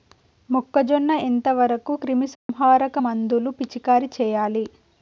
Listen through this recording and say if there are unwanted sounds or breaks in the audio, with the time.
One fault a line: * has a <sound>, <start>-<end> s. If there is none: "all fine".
* has a dropout, 2.4-2.5 s